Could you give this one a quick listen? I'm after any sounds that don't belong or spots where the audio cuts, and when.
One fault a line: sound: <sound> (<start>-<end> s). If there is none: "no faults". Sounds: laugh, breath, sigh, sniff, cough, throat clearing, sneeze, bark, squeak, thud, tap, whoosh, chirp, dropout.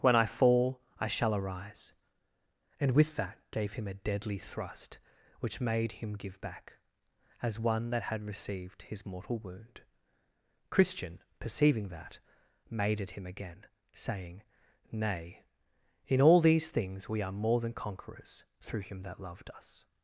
no faults